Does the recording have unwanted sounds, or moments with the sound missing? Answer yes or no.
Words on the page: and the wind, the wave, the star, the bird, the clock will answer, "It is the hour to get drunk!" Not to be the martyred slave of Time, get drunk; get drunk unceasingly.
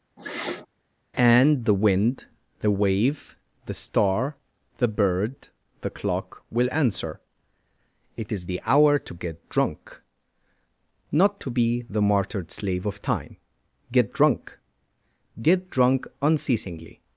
yes